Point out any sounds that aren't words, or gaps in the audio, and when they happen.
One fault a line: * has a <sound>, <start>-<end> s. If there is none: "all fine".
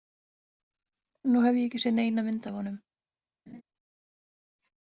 * has a laugh, 3.5-3.6 s